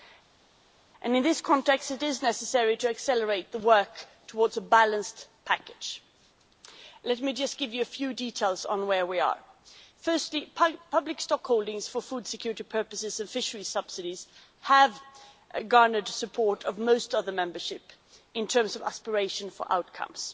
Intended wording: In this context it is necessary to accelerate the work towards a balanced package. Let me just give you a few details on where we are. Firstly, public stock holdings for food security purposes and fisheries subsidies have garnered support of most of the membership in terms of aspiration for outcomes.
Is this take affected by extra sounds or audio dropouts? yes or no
no